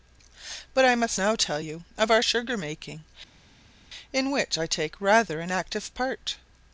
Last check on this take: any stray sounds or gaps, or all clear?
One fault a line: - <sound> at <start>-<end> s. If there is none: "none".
none